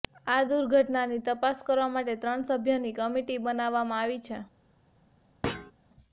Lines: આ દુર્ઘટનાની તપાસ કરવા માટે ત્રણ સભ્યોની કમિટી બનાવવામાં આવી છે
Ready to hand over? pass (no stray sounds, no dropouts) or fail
fail